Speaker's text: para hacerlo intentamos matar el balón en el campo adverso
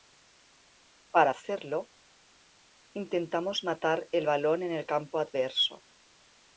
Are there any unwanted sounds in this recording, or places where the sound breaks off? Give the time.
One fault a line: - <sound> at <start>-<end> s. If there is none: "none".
none